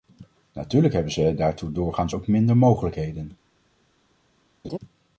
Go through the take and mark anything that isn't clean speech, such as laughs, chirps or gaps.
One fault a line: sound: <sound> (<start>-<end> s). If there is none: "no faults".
sound: laugh (4.6-4.8 s)